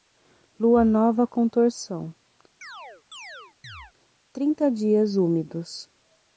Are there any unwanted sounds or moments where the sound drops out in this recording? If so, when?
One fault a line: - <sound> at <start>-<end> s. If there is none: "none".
- chirp at 2.6-3.9 s